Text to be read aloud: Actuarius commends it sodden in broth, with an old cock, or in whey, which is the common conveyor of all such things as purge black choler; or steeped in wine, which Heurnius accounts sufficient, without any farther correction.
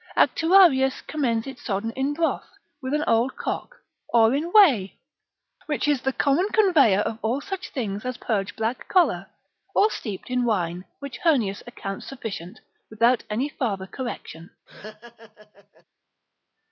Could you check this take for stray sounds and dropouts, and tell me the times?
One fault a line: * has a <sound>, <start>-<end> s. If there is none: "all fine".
* has a laugh, 14.7-15.8 s